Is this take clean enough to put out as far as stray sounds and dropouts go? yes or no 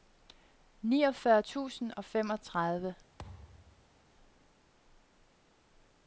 no